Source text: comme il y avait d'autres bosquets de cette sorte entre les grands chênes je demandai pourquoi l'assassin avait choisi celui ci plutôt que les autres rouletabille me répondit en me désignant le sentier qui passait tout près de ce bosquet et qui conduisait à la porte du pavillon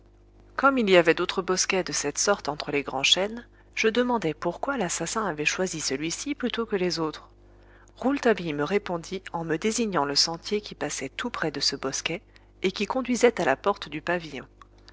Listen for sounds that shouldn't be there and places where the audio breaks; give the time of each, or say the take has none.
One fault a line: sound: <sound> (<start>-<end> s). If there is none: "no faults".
no faults